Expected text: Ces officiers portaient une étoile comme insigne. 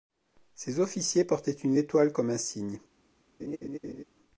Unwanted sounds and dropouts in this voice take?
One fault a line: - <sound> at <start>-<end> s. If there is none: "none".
- laugh at 3.4-4.0 s